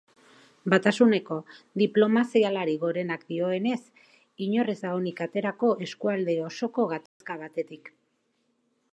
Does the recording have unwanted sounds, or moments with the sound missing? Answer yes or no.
yes